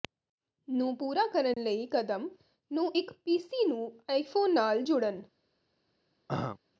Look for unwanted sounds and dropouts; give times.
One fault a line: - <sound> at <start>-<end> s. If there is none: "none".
- dropout at 1.5-1.6 s
- throat clearing at 6.3-6.6 s